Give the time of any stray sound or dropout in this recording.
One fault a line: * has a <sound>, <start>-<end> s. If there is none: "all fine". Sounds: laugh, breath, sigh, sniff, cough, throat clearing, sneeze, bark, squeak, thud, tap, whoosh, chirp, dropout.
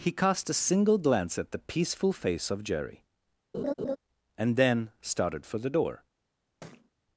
* has a laugh, 3.5-4.0 s
* has a thud, 6.6-6.9 s